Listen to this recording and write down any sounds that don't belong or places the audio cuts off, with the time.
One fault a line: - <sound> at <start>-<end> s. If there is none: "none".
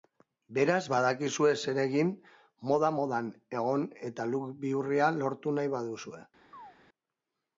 - chirp at 6.5-6.8 s